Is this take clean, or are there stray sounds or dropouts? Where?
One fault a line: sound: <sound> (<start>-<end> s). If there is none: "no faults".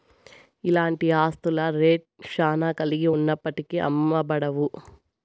no faults